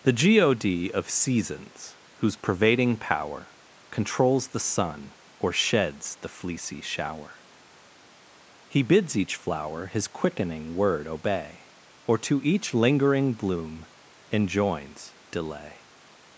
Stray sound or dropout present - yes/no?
no